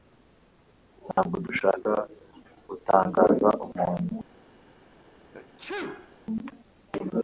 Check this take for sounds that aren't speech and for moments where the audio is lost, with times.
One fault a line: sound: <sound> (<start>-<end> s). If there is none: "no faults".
sound: dropout (1.1-1.2 s)
sound: sneeze (5.3-6.2 s)